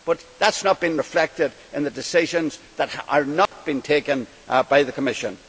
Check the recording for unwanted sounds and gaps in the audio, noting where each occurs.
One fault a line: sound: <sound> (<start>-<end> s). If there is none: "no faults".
sound: dropout (3.5-3.5 s)